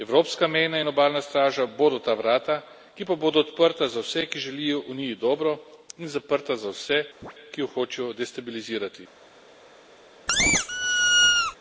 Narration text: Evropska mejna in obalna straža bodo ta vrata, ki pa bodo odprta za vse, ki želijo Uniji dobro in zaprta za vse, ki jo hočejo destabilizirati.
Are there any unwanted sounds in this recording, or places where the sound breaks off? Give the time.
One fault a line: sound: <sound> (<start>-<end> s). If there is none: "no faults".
sound: chirp (7.2-7.3 s)
sound: squeak (10.3-11.6 s)